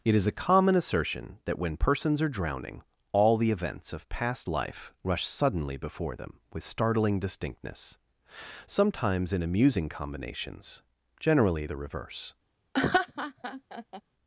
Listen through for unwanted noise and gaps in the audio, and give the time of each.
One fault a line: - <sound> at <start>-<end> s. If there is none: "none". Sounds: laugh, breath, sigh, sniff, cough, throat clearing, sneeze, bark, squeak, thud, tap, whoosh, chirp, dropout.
- laugh at 12.7-14.0 s